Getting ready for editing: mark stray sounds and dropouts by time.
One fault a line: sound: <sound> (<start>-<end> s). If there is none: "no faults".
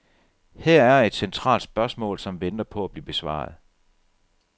no faults